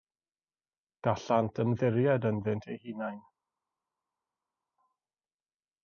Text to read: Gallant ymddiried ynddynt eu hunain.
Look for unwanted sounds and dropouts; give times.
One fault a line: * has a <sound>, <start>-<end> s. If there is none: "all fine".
all fine